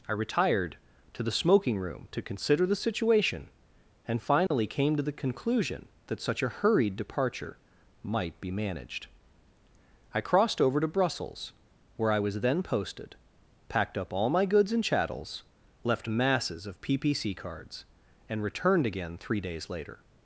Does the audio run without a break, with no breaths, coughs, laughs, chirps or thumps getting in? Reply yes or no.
no